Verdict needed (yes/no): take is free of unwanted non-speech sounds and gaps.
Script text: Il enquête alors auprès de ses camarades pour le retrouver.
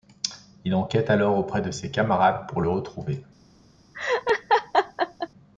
no